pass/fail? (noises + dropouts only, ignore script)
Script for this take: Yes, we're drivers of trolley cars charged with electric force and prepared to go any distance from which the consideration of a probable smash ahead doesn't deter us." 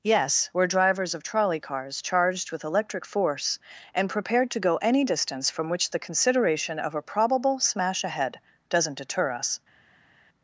pass